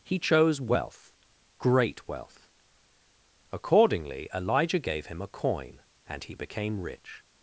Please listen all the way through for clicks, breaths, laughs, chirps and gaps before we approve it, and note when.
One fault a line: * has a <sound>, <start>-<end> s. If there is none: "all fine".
all fine